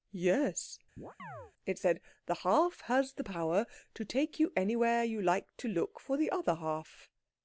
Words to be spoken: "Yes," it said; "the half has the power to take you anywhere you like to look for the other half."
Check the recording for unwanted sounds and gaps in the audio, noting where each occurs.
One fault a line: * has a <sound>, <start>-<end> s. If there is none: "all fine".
* has a chirp, 1.0-1.5 s